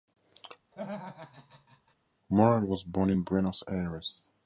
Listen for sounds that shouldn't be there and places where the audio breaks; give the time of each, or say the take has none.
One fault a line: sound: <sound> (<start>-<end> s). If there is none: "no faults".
sound: laugh (0.7-2.0 s)